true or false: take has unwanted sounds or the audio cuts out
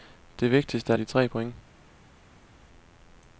false